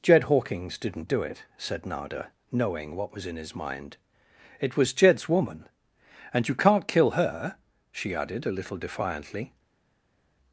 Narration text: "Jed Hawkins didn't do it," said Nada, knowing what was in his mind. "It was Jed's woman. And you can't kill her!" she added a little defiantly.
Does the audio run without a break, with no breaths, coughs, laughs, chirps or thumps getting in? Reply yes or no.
yes